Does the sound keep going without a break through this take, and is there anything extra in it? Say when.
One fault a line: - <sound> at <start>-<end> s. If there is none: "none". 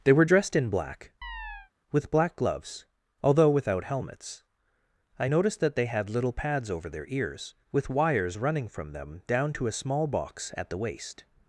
- chirp at 1.2-1.7 s